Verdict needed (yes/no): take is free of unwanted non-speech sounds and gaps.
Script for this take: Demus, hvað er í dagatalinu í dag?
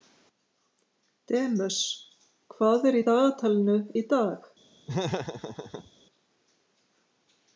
no